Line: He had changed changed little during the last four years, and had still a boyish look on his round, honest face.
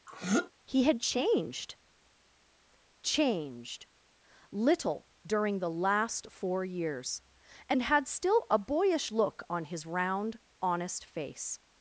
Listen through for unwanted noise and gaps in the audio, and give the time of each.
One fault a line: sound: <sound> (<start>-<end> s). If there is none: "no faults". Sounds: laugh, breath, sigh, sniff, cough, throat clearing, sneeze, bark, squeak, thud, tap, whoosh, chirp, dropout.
sound: throat clearing (0.1-0.5 s)